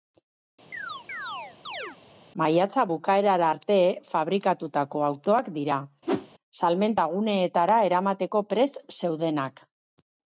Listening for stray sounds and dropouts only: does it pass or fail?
fail